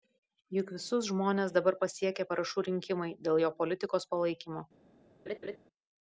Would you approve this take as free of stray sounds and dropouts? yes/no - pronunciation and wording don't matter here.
no